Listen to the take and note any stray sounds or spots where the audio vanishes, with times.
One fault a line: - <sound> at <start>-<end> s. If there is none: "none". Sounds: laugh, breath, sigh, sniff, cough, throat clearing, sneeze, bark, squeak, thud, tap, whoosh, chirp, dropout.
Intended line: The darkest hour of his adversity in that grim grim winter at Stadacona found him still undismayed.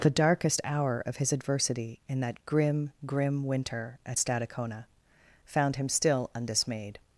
none